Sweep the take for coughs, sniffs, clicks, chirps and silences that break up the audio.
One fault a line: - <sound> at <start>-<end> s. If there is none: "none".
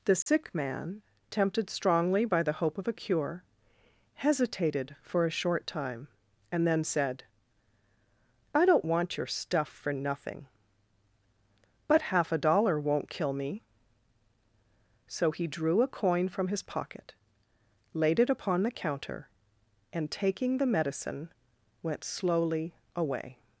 - dropout at 0.2-0.3 s